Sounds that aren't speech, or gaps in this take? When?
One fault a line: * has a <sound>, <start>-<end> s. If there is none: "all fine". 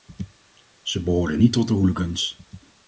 all fine